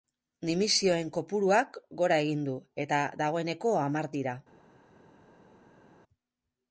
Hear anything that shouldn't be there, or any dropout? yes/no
no